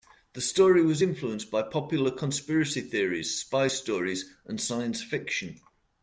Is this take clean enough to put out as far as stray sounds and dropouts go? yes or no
yes